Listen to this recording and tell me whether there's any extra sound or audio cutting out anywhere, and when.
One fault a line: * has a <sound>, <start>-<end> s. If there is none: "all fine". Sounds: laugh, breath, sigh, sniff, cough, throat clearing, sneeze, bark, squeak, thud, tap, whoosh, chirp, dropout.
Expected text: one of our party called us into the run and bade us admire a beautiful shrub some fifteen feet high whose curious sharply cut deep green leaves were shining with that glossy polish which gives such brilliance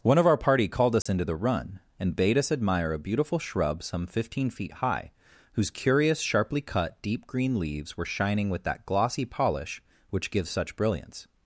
* has a dropout, 1.0-1.1 s